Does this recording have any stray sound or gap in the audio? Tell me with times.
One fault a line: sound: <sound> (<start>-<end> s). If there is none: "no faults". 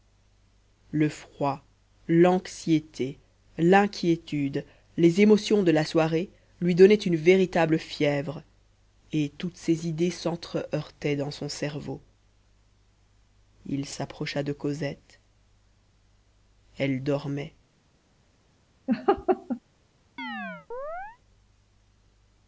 sound: laugh (18.9-19.6 s)
sound: chirp (20.2-21.2 s)